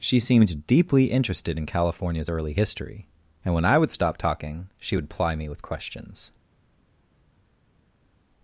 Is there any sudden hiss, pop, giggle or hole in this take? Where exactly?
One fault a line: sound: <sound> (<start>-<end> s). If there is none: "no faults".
no faults